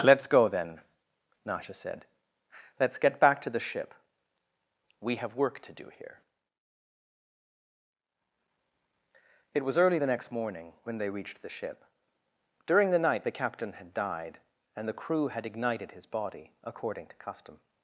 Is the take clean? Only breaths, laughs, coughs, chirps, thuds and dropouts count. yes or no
yes